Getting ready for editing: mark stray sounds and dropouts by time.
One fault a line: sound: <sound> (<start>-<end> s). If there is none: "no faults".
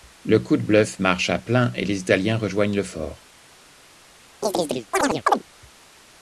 sound: chirp (4.4-5.4 s)